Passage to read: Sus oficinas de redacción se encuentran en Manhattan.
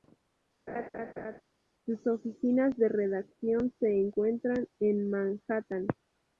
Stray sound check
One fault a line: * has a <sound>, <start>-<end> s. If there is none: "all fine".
* has a laugh, 0.7-1.4 s